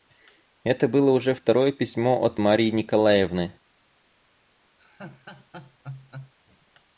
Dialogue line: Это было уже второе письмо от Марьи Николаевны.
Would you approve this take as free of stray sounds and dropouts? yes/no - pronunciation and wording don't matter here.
no